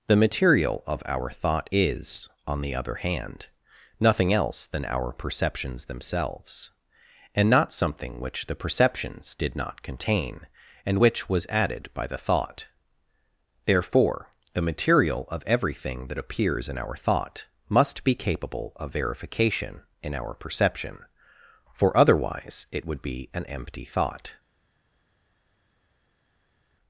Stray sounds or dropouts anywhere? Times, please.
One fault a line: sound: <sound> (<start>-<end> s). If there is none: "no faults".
no faults